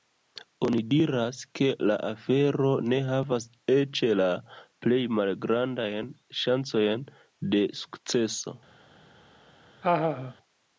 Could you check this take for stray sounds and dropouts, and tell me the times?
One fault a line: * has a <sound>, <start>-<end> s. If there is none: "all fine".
* has a laugh, 9.8-10.3 s